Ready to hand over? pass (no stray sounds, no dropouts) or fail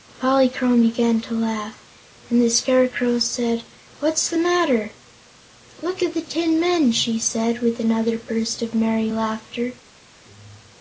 pass